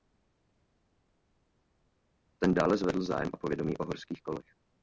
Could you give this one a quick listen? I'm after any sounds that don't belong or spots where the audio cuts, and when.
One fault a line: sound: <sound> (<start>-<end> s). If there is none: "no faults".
no faults